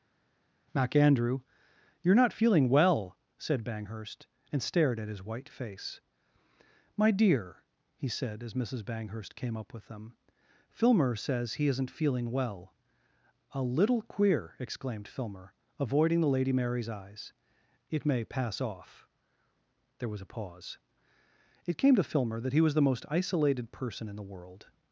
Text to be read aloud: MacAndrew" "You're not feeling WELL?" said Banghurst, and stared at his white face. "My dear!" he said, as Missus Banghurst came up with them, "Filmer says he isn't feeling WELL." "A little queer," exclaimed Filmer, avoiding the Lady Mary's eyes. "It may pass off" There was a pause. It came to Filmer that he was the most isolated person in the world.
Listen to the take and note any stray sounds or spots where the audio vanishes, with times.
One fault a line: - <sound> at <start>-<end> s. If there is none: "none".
none